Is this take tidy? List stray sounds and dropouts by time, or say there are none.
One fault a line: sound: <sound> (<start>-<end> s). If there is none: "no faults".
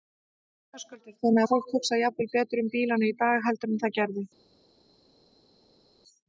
no faults